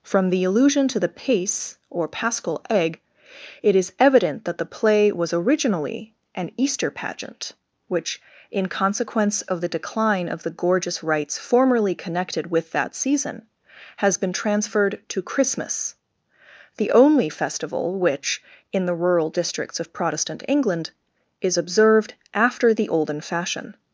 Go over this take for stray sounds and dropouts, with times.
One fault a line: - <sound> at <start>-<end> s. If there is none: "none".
none